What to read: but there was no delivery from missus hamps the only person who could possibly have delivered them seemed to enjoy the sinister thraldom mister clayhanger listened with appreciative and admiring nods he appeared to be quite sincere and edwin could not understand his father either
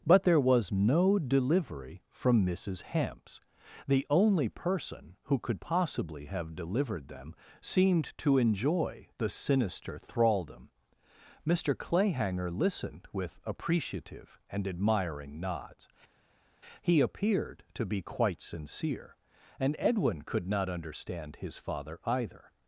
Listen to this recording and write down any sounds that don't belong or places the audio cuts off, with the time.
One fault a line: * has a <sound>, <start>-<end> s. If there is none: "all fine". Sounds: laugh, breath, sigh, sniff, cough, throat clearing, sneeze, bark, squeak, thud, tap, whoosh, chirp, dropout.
all fine